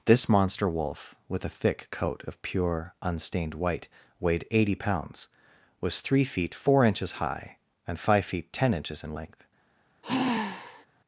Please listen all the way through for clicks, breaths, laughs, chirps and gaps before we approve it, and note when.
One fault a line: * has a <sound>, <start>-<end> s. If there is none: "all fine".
* has a sigh, 10.0-10.9 s